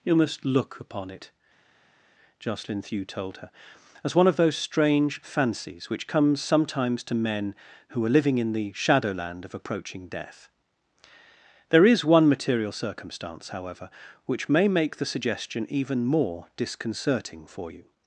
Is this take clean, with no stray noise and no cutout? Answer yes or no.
yes